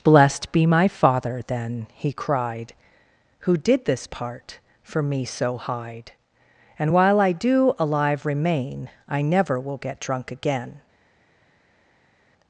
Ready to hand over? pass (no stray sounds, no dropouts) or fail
pass